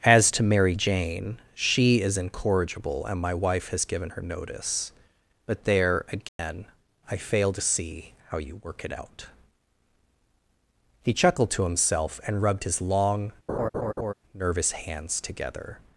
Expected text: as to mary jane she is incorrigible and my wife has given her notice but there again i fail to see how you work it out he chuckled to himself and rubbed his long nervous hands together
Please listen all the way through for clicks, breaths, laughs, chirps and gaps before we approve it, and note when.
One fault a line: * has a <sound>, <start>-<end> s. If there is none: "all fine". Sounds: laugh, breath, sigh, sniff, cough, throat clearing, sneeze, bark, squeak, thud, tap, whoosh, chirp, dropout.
* has a dropout, 6.3-6.4 s
* has a laugh, 13.5-14.1 s